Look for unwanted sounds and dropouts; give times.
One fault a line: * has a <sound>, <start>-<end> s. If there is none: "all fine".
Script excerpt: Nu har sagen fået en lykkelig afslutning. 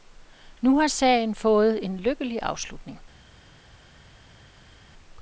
all fine